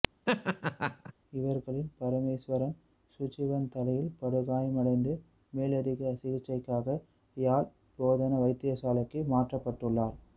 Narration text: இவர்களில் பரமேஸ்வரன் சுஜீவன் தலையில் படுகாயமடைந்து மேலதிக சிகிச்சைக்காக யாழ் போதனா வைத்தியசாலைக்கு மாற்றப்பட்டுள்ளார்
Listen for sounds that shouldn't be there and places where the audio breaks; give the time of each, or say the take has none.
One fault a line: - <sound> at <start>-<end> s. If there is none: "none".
- laugh at 0.3-1.1 s